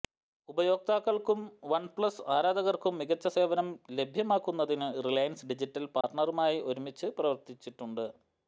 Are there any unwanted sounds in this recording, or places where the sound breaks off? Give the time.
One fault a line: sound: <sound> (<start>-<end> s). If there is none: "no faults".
sound: dropout (6.0-6.0 s)